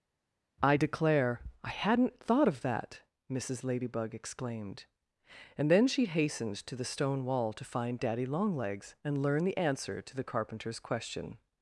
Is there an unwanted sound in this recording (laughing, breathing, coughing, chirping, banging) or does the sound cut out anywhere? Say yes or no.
no